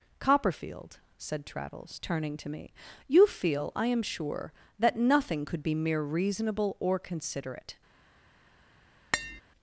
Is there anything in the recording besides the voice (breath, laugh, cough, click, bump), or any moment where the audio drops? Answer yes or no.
yes